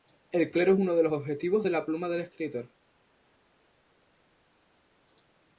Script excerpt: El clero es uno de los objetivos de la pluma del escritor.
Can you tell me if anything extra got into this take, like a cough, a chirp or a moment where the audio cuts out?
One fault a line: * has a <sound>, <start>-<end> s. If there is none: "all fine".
all fine